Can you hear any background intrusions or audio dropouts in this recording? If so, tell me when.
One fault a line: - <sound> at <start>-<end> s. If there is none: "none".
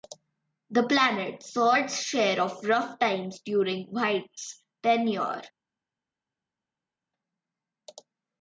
none